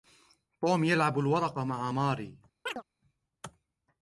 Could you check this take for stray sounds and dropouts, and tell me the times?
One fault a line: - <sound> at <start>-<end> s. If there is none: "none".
- chirp at 2.7-2.8 s